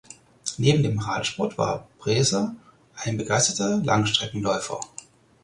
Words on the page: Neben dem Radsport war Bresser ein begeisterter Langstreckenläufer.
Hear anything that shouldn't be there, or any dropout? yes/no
no